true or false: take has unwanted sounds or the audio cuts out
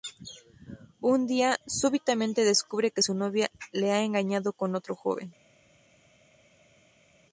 false